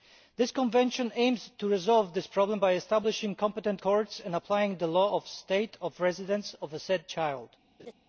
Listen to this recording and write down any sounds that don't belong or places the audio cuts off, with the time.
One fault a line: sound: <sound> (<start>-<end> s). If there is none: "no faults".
sound: laugh (7.8-7.9 s)